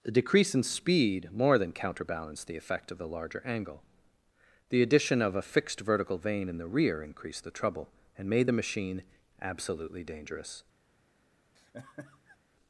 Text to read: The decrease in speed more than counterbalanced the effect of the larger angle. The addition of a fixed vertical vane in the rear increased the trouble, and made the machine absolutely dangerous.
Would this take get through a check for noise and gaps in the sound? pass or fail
fail